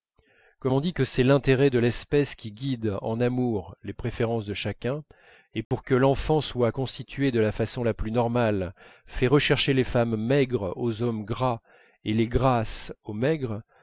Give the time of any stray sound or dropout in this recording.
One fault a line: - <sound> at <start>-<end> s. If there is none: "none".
- dropout at 5.6-5.7 s